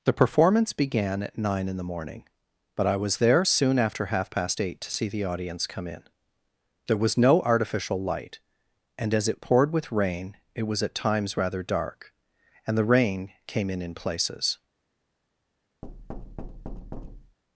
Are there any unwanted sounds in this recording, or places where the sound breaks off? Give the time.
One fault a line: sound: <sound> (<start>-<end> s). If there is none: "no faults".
sound: thud (15.8-17.4 s)